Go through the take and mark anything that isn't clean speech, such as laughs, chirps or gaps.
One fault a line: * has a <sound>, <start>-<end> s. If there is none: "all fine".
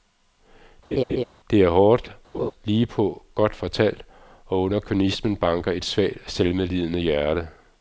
* has a laugh, 0.9-1.2 s
* has a laugh, 2.3-2.5 s